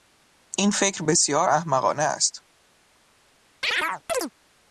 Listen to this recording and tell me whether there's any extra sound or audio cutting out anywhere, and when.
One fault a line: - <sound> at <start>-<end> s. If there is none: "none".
- chirp at 3.6-4.3 s